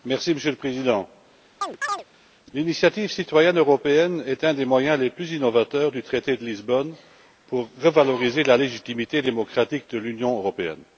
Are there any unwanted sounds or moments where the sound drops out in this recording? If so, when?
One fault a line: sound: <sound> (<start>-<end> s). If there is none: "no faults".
sound: chirp (1.6-2.0 s)